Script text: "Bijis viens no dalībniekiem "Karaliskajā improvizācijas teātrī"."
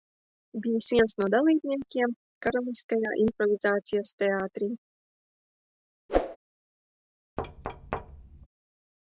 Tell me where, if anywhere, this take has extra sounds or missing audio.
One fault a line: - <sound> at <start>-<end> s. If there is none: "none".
- whoosh at 6.1-6.4 s
- thud at 7.4-8.5 s